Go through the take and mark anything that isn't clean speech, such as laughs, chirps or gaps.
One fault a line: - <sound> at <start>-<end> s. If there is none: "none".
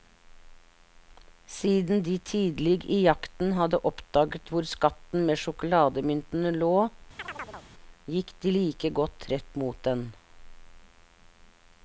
- chirp at 7.2-7.7 s